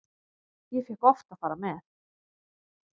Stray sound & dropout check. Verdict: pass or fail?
pass